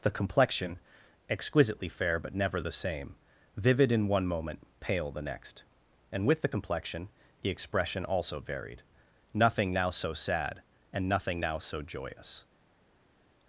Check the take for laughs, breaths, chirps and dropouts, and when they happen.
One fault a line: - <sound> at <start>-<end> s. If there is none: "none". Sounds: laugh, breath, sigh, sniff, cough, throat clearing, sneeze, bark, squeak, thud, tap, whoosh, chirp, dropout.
none